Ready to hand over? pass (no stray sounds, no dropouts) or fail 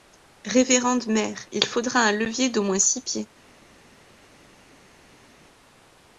pass